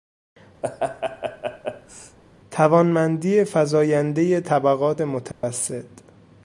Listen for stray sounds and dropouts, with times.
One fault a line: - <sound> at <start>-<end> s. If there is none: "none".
- laugh at 0.6-2.2 s
- dropout at 5.3-5.4 s